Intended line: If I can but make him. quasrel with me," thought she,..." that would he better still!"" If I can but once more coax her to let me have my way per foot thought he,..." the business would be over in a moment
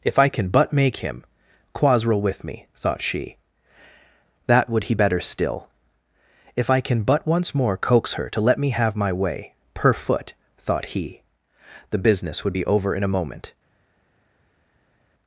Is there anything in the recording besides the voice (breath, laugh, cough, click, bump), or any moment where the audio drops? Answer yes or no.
no